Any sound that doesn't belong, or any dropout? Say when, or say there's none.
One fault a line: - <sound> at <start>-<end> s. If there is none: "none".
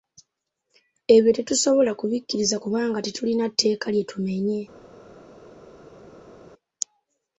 none